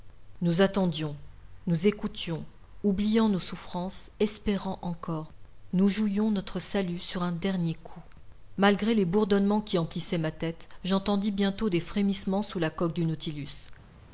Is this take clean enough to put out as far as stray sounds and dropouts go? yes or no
yes